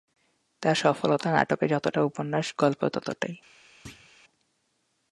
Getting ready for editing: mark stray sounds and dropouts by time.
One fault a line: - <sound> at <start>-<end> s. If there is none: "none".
- thud at 3.9-4.1 s